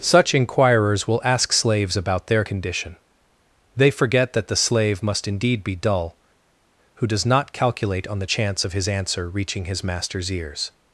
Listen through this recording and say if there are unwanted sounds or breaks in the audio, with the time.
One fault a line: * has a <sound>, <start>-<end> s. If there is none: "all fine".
all fine